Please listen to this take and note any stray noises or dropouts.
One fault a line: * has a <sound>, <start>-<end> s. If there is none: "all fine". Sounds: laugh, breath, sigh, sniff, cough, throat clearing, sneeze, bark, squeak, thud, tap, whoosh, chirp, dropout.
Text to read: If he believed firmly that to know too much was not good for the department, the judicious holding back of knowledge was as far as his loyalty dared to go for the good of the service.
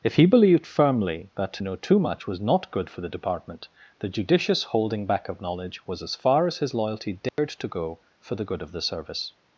* has a dropout, 7.3-7.4 s